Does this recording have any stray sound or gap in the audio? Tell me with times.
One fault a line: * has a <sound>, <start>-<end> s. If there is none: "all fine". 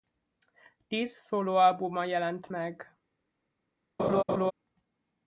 * has a laugh, 4.0-4.5 s